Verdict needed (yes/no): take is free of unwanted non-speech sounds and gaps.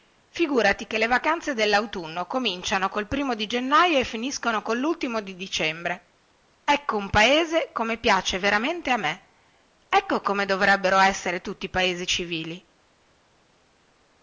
yes